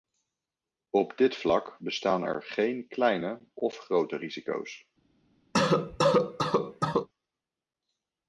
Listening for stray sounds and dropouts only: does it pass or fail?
fail